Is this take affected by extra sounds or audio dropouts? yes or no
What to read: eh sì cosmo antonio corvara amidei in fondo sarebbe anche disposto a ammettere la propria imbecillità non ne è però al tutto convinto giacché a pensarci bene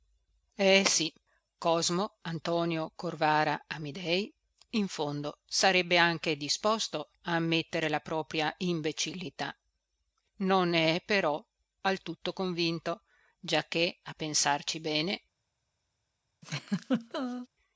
yes